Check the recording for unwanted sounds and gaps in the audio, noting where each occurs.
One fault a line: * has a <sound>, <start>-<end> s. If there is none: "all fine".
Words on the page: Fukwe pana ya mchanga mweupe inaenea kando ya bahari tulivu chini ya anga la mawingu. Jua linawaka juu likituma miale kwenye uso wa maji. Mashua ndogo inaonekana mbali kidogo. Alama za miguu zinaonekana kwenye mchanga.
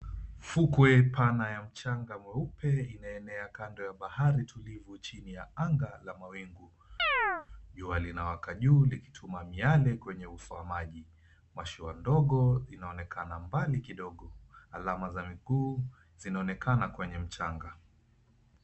* has a chirp, 7.0-7.5 s